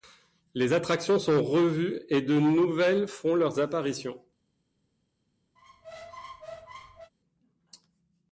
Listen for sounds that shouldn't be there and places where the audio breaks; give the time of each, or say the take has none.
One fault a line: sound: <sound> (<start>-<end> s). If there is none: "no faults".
sound: squeak (5.6-7.1 s)